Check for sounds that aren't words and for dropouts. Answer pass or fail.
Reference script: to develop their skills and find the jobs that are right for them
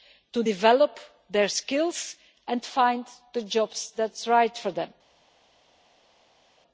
pass